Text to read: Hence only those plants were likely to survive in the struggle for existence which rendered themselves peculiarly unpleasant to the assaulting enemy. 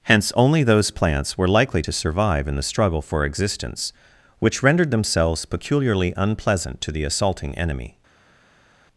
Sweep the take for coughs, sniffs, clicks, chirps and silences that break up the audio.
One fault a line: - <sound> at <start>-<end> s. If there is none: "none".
none